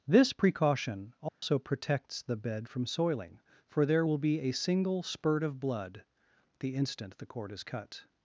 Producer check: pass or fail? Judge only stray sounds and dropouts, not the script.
fail